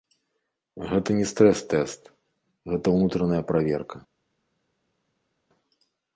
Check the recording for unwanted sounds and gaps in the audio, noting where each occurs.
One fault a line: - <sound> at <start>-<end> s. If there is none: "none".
none